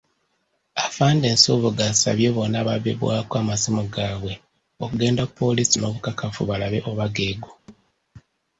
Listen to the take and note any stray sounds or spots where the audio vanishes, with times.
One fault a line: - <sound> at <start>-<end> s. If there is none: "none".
- thud at 7.7-7.9 s